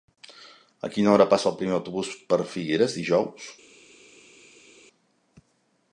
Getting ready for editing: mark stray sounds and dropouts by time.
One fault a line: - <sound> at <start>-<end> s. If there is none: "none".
none